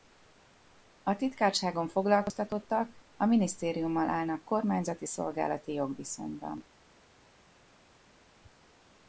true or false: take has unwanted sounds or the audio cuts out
false